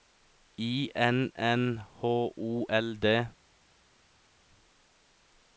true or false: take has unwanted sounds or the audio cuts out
false